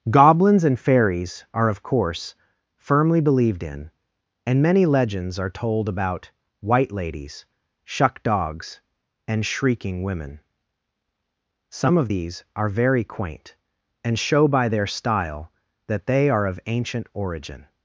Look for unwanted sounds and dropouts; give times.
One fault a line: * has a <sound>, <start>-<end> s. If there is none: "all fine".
all fine